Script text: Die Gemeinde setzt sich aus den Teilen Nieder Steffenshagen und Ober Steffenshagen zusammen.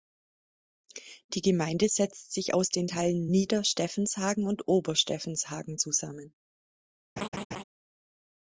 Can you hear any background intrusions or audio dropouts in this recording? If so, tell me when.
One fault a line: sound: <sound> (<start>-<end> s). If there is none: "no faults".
sound: laugh (7.2-7.6 s)